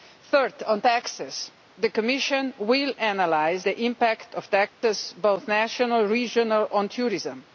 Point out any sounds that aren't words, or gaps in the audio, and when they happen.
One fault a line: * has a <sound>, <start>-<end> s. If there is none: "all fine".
* has a dropout, 4.7-4.8 s